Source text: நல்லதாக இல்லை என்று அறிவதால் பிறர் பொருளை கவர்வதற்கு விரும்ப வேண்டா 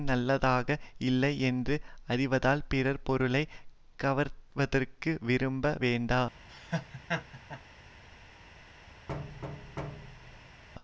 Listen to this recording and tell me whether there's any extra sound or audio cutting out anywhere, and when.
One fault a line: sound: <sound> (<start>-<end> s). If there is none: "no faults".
sound: laugh (6.5-7.6 s)
sound: thud (9.1-10.6 s)